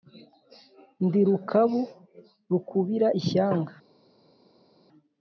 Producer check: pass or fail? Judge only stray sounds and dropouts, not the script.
pass